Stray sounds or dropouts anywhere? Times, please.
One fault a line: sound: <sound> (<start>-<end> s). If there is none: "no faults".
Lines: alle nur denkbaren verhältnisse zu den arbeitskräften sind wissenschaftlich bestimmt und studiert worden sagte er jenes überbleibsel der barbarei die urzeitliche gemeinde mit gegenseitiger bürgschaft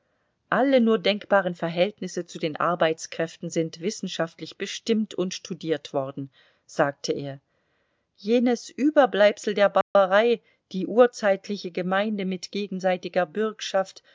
sound: dropout (9.8-10.0 s)